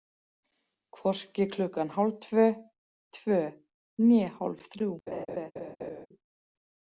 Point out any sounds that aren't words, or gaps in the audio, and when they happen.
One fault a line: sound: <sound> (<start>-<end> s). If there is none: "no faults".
sound: laugh (5.1-6.1 s)